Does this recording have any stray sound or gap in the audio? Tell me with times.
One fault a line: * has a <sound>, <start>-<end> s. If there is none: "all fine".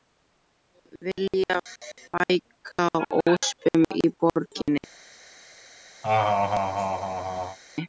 * has a laugh, 6.0-7.6 s